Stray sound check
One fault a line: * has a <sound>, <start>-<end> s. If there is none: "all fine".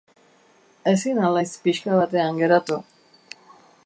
all fine